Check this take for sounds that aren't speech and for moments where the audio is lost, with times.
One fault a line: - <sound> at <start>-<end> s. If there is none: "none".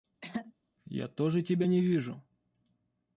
- throat clearing at 0.2-0.5 s